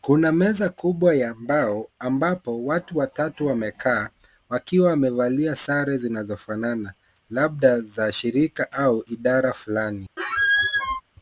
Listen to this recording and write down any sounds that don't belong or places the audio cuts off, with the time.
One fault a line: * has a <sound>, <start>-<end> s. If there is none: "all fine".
* has a squeak, 10.2-11.0 s